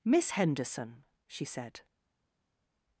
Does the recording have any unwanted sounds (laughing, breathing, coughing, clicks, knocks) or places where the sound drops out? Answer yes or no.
no